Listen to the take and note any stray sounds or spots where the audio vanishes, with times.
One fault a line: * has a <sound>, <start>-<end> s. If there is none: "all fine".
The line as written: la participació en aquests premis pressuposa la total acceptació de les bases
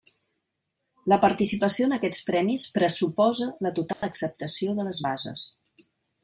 * has a dropout, 3.9-4.0 s